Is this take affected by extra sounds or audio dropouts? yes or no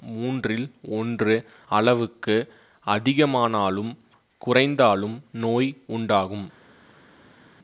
no